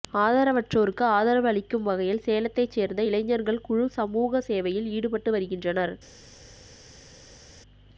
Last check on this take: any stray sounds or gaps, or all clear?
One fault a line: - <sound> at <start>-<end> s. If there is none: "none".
none